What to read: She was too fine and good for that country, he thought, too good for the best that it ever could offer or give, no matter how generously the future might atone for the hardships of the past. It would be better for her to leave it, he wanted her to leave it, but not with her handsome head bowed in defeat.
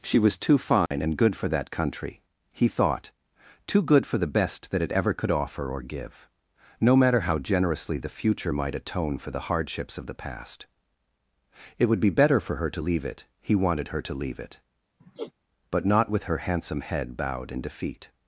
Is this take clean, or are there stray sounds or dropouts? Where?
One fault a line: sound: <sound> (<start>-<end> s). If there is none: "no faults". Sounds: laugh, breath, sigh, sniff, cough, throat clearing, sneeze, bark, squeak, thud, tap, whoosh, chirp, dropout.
sound: dropout (0.9-0.9 s)
sound: sigh (15.0-15.3 s)